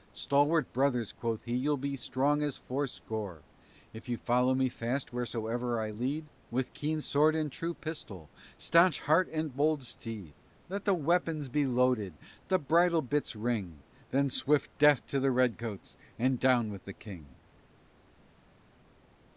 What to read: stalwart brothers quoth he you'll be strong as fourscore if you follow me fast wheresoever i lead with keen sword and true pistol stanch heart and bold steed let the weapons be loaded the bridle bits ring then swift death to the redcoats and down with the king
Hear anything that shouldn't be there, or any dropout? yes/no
no